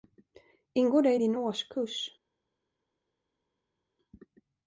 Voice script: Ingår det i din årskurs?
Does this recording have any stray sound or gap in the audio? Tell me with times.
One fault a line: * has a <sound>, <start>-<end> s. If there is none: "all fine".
all fine